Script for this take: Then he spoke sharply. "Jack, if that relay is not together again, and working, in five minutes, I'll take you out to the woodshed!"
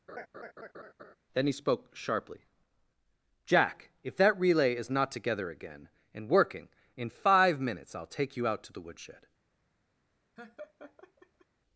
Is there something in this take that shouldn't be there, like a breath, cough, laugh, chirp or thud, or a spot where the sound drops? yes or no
yes